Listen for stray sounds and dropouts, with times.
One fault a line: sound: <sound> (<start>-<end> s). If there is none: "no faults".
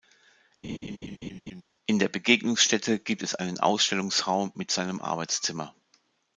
sound: laugh (0.6-1.6 s)